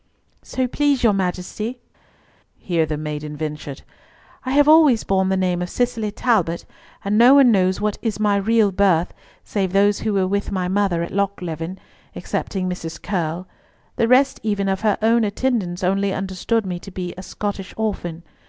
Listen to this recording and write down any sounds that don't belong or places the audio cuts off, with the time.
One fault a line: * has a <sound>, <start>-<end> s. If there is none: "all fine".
all fine